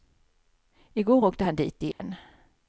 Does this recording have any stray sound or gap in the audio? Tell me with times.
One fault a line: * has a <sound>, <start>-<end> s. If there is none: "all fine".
* has a dropout, 1.9-2.0 s